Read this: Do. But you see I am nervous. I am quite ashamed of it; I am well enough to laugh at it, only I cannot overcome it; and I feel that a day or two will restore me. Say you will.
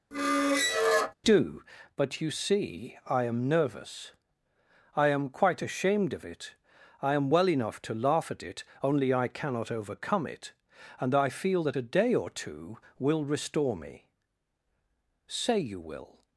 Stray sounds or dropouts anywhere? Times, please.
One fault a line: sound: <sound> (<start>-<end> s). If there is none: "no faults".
sound: squeak (0.1-1.1 s)